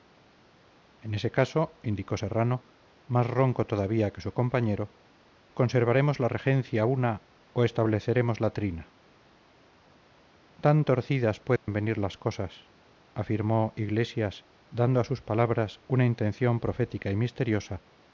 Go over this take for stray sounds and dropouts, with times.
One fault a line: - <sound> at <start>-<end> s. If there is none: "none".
- dropout at 11.6-11.7 s